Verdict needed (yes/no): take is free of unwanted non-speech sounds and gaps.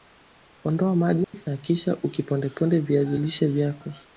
no